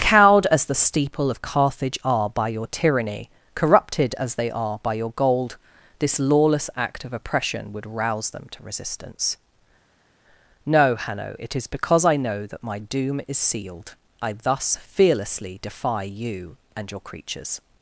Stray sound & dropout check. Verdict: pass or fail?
pass